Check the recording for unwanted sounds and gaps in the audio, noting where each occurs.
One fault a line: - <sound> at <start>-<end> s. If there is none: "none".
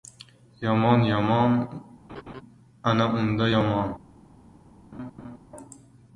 - laugh at 2.1-2.4 s
- laugh at 4.9-5.4 s